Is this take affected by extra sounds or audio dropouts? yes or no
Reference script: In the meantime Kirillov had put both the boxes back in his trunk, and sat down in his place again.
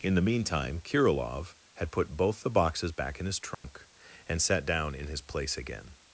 yes